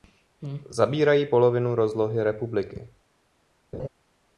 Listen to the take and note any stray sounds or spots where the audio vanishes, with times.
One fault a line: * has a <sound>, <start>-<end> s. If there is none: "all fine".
* has a laugh, 3.7-3.9 s